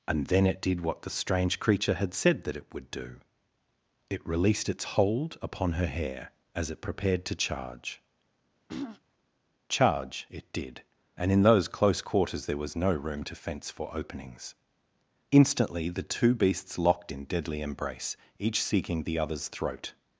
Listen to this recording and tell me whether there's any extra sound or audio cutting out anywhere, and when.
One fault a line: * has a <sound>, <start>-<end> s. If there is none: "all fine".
* has a throat clearing, 8.7-9.0 s